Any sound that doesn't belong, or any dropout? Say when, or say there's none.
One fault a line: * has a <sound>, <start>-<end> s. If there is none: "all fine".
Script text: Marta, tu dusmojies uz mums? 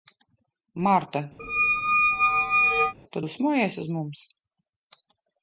* has a squeak, 1.4-2.9 s